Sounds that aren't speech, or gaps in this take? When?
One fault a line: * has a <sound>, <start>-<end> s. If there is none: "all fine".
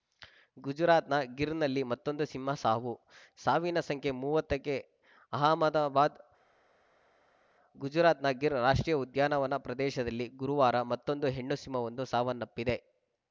all fine